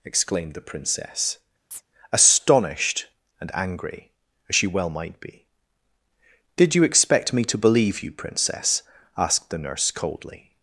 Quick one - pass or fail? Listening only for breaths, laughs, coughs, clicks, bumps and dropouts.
fail